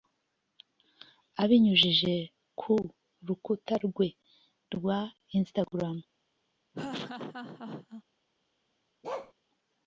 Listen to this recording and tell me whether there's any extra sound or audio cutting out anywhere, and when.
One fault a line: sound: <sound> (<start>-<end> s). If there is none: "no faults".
sound: laugh (6.7-8.0 s)
sound: bark (9.0-9.3 s)